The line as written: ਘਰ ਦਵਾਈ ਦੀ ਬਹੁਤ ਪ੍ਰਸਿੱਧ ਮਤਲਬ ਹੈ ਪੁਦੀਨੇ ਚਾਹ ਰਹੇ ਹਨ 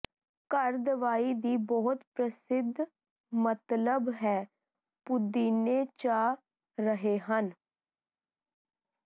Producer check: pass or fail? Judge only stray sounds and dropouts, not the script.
pass